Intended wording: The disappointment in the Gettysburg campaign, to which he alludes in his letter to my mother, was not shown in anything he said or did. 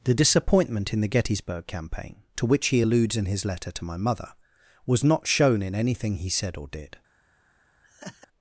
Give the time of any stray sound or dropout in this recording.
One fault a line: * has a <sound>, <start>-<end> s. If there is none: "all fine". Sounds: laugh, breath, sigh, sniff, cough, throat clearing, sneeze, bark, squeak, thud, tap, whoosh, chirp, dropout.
* has a laugh, 7.8-8.3 s